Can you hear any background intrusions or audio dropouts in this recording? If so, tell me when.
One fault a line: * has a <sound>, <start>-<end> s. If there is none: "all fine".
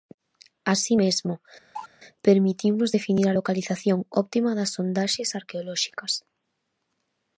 * has a cough, 1.7-1.9 s